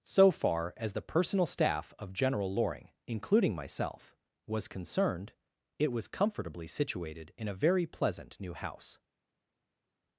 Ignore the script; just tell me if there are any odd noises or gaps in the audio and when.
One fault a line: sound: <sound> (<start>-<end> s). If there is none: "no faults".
no faults